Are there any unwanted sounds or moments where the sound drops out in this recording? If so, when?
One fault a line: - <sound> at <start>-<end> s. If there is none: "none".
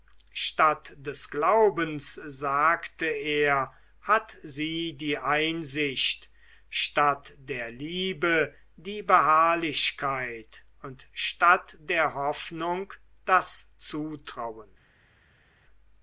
none